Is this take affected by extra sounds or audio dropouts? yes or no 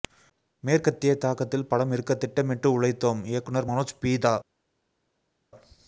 no